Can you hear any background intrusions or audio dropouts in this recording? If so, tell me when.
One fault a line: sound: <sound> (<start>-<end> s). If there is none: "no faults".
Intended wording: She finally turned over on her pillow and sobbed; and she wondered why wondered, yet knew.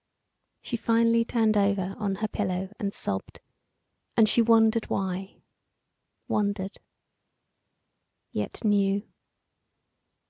no faults